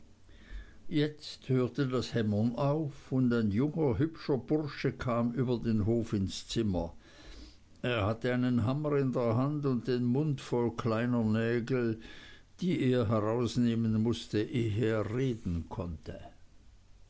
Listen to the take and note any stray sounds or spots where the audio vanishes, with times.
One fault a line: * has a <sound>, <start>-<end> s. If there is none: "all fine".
all fine